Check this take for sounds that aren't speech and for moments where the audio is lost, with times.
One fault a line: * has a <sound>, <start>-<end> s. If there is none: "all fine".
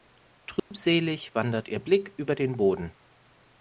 * has a dropout, 0.6-0.7 s